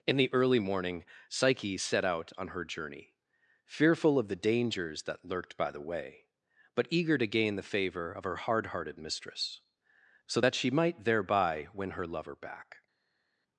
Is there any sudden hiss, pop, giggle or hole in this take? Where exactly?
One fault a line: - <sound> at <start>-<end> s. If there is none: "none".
none